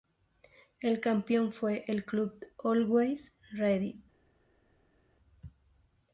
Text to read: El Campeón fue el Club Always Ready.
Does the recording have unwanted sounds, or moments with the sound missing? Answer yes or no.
no